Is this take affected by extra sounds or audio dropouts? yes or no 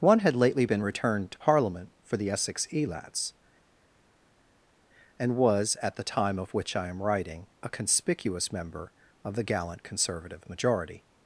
no